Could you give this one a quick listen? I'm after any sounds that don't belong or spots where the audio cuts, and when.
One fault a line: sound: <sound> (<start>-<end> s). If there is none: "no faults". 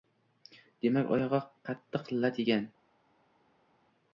no faults